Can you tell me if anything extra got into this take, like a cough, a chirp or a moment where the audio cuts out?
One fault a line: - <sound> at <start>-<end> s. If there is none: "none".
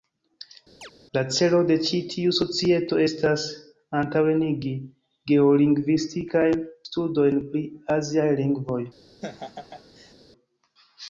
- chirp at 0.8-0.9 s
- laugh at 9.2-10.1 s